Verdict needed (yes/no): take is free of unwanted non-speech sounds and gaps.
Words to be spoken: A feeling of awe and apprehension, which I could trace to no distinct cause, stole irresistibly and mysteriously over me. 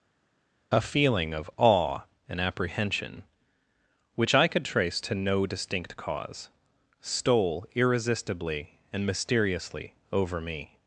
yes